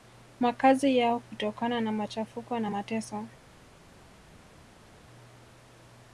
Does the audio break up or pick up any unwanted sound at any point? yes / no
no